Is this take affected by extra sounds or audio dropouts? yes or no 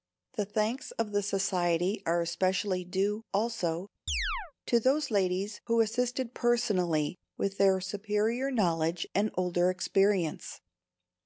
yes